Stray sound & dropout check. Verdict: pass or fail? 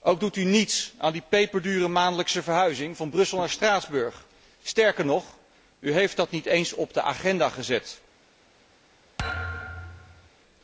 fail